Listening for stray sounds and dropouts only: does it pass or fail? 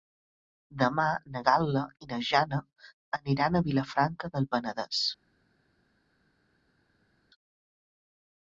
pass